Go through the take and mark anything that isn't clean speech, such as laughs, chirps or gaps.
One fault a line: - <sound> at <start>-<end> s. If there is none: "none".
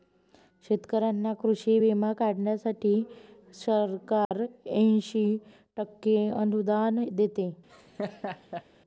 - dropout at 4.2-4.3 s
- laugh at 7.7-8.7 s